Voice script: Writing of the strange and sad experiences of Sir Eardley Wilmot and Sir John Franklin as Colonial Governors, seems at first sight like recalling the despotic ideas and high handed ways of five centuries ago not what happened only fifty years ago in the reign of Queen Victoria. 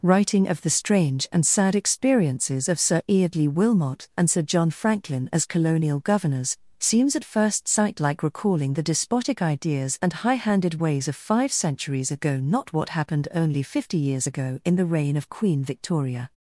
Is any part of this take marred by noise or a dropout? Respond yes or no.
no